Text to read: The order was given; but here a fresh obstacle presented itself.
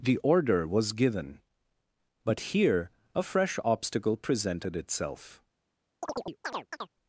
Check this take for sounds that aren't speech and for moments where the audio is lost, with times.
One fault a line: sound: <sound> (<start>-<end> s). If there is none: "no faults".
sound: chirp (6.0-6.9 s)